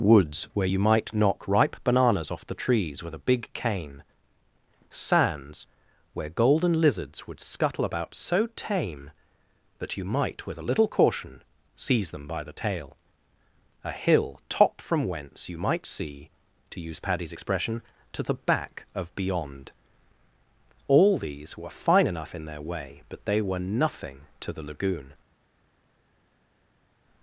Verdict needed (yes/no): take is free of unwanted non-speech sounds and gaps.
yes